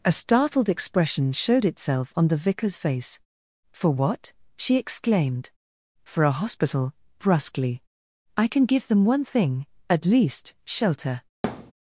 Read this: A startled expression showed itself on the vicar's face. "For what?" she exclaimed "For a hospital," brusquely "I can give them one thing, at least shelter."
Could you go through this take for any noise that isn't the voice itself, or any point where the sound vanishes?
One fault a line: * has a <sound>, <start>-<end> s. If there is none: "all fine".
* has a thud, 11.4-11.7 s